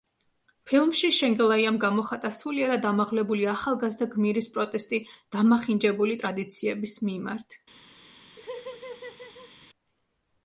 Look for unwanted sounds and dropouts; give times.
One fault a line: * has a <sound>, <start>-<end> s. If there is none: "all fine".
* has a laugh, 8.4-9.5 s